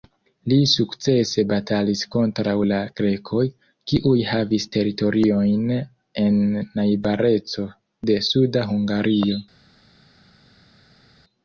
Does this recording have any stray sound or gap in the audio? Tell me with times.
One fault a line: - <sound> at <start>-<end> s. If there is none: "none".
none